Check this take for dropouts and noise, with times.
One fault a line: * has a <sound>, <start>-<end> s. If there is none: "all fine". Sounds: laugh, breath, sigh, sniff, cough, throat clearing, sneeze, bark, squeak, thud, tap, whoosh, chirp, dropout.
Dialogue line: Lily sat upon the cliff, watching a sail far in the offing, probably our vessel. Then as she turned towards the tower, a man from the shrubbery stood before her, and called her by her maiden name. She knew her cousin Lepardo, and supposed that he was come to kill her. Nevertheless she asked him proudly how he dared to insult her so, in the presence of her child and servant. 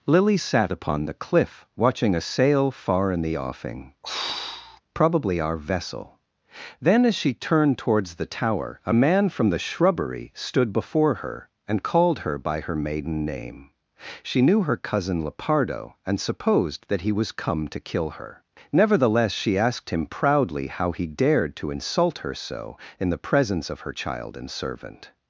* has a throat clearing, 4.0-4.8 s